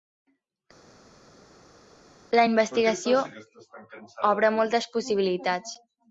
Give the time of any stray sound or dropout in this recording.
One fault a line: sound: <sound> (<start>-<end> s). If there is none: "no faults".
no faults